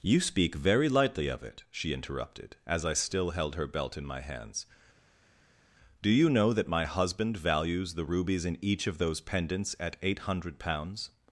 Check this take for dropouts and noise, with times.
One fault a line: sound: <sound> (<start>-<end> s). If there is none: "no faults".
no faults